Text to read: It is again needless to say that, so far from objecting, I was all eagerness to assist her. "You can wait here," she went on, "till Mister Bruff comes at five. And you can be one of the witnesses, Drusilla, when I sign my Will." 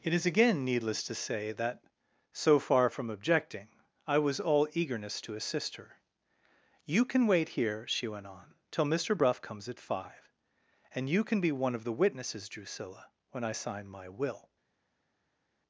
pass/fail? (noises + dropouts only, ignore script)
pass